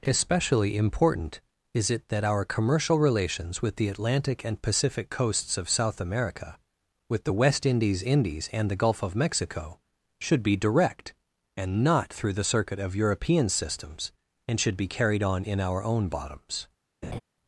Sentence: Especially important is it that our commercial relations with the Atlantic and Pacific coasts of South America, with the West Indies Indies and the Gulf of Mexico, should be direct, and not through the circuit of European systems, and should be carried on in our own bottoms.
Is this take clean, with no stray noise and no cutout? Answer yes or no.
no